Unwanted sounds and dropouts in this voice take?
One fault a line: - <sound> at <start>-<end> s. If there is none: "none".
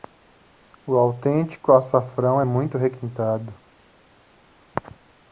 none